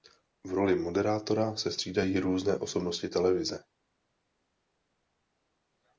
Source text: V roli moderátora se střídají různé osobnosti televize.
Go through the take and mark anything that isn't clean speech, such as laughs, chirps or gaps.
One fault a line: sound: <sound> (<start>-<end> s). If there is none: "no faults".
no faults